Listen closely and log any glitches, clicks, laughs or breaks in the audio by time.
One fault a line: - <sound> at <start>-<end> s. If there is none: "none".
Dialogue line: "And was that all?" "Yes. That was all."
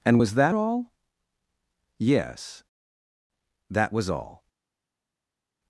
none